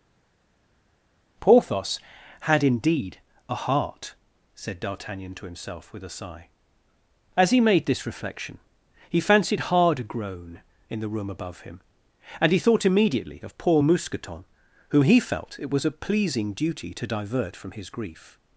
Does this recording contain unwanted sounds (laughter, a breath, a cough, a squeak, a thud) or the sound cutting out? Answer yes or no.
no